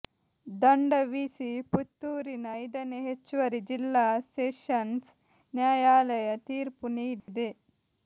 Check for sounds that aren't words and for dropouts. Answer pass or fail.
fail